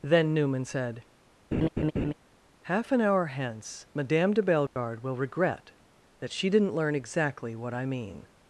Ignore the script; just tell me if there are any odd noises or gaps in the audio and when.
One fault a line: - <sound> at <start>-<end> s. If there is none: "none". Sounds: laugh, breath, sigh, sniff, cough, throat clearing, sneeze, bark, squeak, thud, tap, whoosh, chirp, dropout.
- laugh at 1.5-2.1 s
- dropout at 4.7-4.8 s